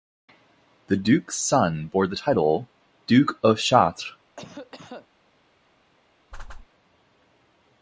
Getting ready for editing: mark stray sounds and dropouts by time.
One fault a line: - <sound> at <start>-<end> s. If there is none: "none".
- cough at 4.4-5.1 s
- whoosh at 6.3-6.7 s